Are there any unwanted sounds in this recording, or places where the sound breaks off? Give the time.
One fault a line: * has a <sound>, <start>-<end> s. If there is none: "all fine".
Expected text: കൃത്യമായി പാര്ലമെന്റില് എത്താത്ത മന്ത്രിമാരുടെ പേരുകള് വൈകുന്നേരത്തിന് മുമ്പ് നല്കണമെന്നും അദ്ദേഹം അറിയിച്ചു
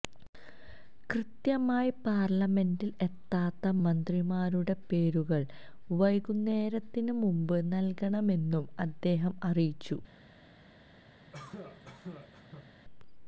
* has a cough, 11.3-12.7 s